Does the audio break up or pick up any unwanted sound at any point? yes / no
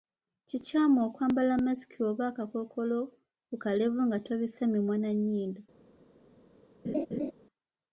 yes